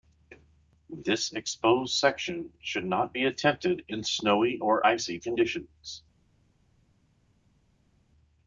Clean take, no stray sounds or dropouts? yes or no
yes